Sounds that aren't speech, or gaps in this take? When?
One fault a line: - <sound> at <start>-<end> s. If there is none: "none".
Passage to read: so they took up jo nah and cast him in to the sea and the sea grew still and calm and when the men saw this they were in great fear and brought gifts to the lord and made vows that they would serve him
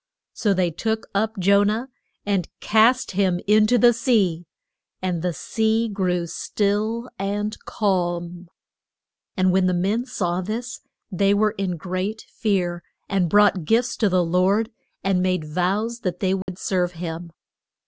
- dropout at 16.4-16.5 s